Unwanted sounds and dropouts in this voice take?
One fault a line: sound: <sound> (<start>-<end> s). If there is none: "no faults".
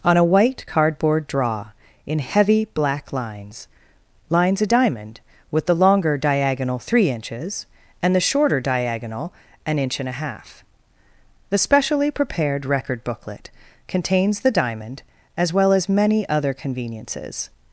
no faults